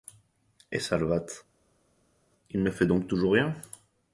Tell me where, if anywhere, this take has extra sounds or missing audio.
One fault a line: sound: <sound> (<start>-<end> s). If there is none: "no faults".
no faults